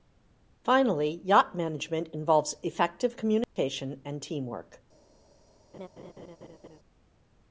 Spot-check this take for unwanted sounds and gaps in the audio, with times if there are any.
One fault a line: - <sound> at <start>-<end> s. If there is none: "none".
- dropout at 3.4-3.6 s
- laugh at 5.7-6.8 s